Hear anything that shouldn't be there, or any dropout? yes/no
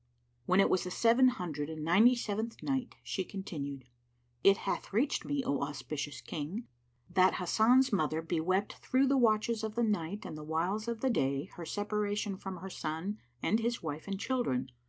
no